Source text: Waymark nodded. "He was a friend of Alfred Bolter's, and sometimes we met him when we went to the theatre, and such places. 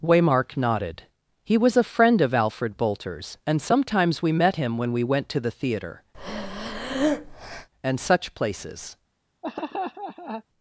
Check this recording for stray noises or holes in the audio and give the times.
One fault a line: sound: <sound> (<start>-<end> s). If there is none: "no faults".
sound: breath (6.1-7.7 s)
sound: laugh (9.4-10.4 s)